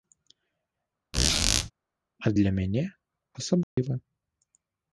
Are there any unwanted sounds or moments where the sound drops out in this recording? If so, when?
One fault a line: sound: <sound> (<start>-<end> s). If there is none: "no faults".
sound: squeak (1.1-1.7 s)
sound: dropout (3.6-3.8 s)